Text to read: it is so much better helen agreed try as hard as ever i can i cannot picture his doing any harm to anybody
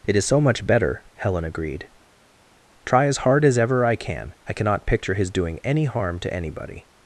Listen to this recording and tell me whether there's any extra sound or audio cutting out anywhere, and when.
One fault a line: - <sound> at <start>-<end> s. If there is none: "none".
none